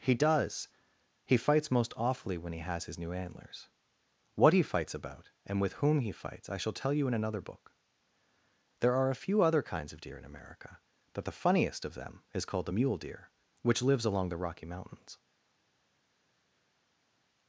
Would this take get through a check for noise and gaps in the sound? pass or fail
pass